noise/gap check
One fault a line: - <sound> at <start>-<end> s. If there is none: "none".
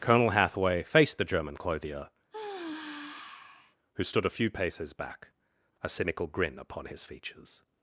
- sigh at 2.3-3.8 s